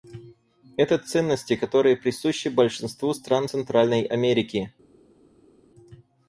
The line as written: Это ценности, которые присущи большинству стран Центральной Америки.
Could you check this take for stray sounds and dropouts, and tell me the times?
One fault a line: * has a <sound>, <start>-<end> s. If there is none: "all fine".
all fine